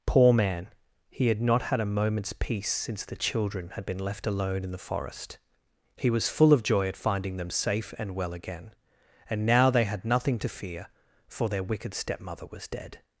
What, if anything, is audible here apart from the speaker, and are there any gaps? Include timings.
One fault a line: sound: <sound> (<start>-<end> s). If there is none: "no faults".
no faults